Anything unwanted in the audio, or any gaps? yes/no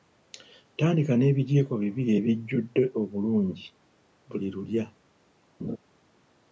yes